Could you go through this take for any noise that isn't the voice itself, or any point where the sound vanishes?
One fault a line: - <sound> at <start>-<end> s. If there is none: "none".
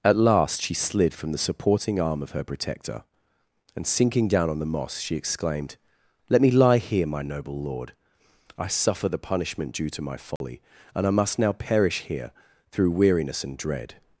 - dropout at 10.4-10.4 s